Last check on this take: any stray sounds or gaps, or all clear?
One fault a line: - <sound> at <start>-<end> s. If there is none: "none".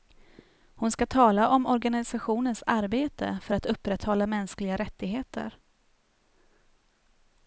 none